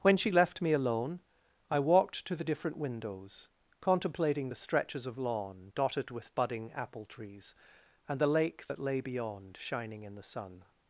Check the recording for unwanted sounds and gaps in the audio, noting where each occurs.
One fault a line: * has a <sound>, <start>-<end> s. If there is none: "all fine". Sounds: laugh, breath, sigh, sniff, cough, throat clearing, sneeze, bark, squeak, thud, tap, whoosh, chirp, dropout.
all fine